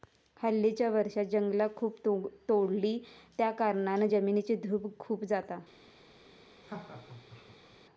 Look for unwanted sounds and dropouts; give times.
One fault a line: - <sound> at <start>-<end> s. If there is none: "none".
- laugh at 6.6-7.8 s